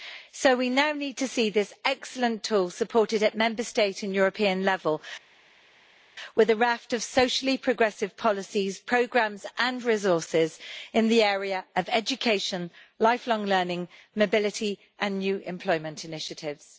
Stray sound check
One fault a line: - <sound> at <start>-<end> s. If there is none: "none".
none